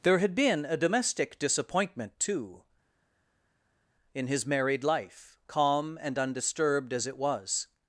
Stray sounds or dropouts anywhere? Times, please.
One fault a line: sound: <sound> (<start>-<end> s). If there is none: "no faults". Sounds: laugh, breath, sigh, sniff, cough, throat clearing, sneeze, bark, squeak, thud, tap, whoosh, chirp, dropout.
no faults